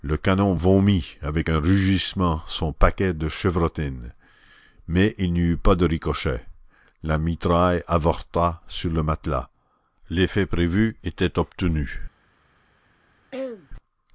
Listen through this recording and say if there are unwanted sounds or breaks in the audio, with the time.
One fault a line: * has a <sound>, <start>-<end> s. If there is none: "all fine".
* has a throat clearing, 13.3-13.7 s